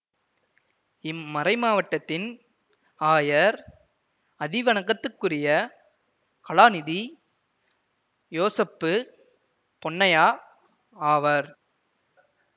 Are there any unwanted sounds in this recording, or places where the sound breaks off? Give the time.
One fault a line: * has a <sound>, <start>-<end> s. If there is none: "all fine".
all fine